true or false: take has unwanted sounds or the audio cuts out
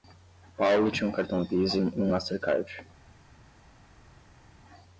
false